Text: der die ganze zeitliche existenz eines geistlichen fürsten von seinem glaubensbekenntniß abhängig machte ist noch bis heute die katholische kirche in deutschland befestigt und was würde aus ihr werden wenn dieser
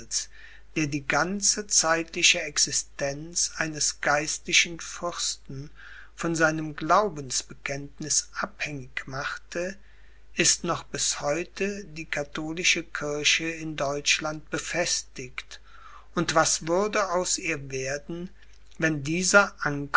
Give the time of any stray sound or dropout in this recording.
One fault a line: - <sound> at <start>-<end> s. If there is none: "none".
none